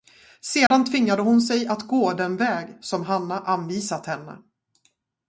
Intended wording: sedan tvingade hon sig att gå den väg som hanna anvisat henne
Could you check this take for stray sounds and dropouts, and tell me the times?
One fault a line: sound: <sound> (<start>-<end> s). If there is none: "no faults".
sound: dropout (0.7-0.7 s)